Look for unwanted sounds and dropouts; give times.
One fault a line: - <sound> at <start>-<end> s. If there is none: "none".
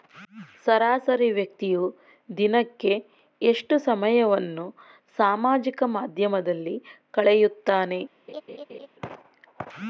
- laugh at 8.3-8.9 s